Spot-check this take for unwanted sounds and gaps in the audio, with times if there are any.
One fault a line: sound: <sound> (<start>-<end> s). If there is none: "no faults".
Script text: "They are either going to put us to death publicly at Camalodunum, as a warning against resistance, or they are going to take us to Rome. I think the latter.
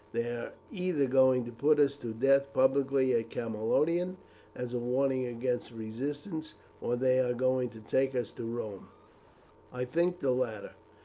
no faults